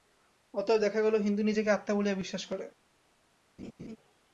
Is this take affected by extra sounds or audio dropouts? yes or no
yes